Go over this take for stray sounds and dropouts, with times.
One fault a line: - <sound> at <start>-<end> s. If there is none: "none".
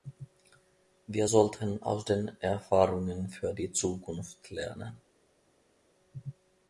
none